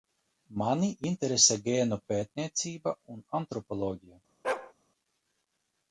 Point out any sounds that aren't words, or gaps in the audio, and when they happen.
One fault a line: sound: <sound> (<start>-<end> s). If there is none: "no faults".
sound: bark (4.4-4.7 s)